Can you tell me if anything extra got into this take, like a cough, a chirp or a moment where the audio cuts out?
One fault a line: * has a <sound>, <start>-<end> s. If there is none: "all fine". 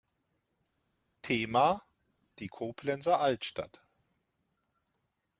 all fine